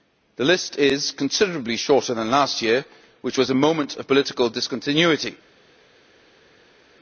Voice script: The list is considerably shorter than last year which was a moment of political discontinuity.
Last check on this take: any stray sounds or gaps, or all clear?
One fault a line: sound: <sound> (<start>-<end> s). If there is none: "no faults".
no faults